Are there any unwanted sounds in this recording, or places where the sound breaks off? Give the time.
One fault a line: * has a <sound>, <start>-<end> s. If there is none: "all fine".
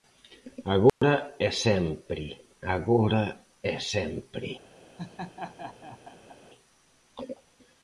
* has a dropout, 0.9-1.0 s
* has a laugh, 5.0-6.4 s